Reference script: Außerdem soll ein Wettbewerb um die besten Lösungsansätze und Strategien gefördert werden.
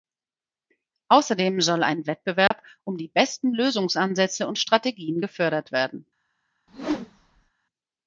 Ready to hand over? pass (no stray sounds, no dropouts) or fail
fail